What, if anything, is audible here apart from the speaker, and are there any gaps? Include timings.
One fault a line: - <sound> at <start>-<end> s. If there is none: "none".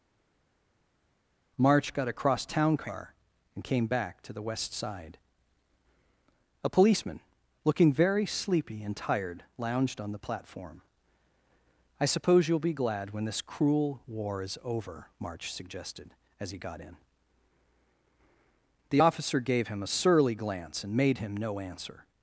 none